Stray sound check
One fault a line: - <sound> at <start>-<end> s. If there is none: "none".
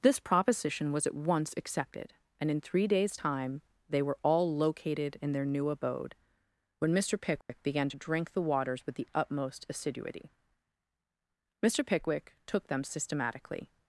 - dropout at 7.4-7.5 s